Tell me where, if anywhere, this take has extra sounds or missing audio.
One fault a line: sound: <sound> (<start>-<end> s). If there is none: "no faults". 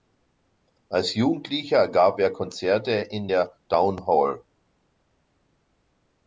no faults